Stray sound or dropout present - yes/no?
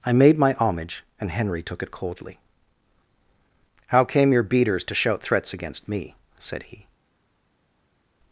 no